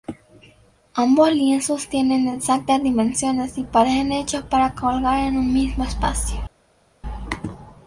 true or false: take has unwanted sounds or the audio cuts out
false